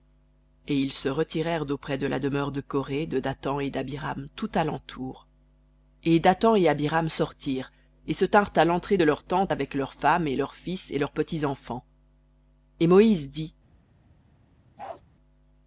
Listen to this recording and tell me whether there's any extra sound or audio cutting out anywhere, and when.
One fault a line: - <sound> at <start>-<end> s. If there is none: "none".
- bark at 14.8-15.0 s